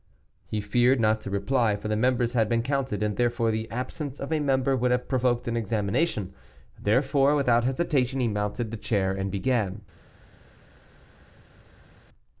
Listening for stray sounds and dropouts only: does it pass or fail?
pass